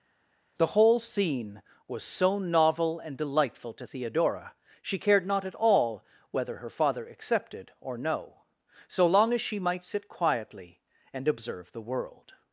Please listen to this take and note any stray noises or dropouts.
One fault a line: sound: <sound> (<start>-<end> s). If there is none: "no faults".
no faults